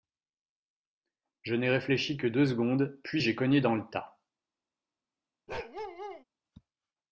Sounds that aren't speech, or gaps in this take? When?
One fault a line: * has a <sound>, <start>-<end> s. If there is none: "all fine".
* has a bark, 5.5-6.2 s